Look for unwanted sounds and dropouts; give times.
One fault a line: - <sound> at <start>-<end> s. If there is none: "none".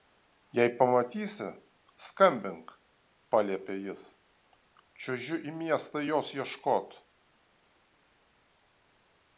none